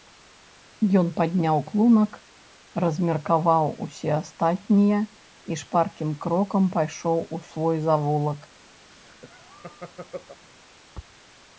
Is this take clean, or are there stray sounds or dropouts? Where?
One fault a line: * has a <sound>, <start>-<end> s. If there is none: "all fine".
* has a laugh, 8.9-10.4 s